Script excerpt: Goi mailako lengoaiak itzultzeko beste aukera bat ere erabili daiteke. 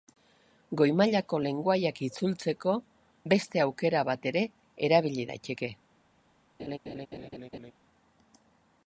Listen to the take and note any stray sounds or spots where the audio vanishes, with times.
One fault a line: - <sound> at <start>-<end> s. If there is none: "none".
- laugh at 6.6-7.7 s